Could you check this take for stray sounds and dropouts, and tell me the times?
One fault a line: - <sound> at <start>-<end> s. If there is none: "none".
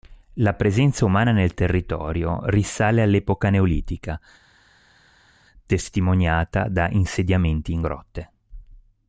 none